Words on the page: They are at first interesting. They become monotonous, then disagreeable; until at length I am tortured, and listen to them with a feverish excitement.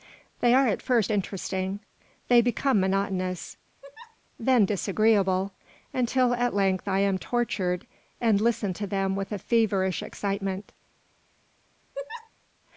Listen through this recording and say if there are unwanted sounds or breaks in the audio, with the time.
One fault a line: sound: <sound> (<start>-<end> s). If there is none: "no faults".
sound: laugh (3.8-4.2 s)
sound: laugh (11.9-12.3 s)